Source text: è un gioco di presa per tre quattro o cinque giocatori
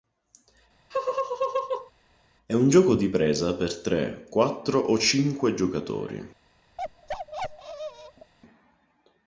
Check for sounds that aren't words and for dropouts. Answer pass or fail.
fail